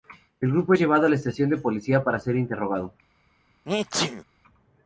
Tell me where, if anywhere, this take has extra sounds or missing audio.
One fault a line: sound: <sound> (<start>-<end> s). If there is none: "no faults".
sound: sneeze (3.7-4.2 s)